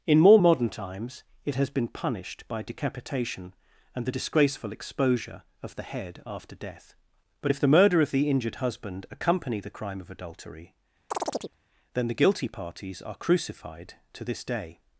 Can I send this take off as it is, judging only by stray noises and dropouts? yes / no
no